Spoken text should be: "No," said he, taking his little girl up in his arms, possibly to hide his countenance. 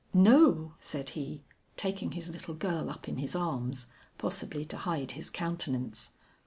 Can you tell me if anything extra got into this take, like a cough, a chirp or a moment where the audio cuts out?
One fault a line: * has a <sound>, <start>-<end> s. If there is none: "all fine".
all fine